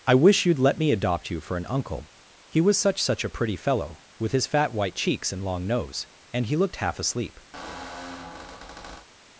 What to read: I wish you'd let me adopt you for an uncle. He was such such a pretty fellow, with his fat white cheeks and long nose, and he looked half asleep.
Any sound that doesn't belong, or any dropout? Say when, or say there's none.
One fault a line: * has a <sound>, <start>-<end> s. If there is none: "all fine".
* has a squeak, 7.5-9.1 s